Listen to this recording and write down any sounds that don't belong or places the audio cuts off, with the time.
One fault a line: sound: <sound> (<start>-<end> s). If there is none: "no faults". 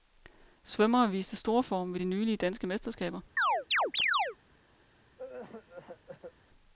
sound: chirp (3.4-4.4 s)
sound: cough (5.2-6.3 s)